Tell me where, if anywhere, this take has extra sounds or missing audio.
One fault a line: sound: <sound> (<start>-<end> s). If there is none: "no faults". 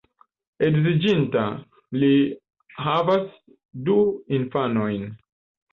no faults